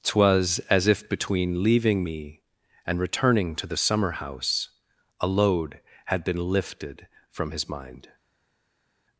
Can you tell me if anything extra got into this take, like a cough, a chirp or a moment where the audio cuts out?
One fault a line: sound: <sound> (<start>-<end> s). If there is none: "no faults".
no faults